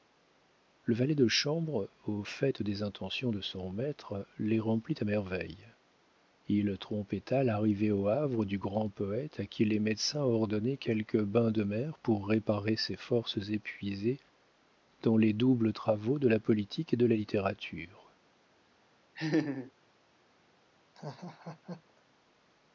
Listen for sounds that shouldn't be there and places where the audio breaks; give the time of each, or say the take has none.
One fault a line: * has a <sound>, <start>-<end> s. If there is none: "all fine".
* has a laugh, 19.2-19.7 s
* has a laugh, 20.9-22.0 s